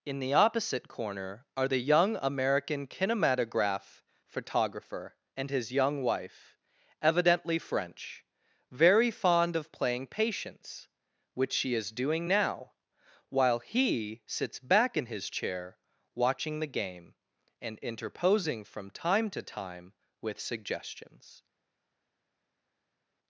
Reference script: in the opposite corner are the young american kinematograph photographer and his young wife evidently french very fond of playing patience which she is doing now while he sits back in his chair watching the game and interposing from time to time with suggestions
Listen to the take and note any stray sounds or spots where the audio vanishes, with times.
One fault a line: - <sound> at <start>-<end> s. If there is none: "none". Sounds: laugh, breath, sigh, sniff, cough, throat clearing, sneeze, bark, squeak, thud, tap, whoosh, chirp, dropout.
none